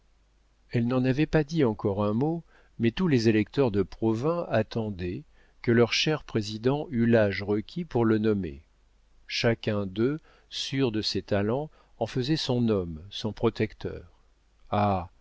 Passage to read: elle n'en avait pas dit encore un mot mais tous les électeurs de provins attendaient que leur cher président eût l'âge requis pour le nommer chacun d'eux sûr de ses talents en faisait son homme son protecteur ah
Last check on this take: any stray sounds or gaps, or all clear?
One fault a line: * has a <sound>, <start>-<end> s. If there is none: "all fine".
all fine